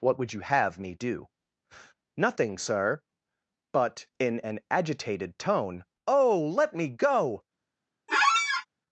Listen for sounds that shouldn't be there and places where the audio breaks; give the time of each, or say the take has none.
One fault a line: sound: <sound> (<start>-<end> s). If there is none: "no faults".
sound: squeak (8.1-8.7 s)